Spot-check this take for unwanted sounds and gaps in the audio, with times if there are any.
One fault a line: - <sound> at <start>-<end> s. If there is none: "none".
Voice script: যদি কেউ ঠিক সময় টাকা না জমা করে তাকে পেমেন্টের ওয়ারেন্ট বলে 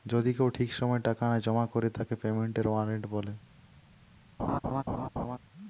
- laugh at 4.4-5.4 s